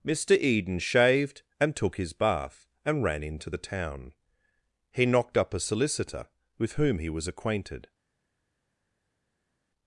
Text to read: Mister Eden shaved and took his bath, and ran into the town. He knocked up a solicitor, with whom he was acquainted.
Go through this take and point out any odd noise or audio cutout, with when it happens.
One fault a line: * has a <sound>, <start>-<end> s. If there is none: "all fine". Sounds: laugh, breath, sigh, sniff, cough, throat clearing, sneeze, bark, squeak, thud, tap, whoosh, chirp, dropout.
all fine